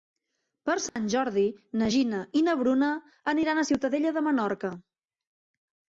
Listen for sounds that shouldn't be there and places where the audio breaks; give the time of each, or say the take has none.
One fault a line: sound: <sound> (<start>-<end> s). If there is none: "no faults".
sound: dropout (0.9-1.0 s)